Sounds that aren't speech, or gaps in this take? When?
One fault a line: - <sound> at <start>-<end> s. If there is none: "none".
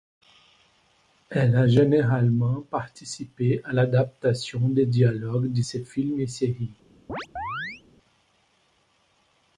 - chirp at 7.1-7.8 s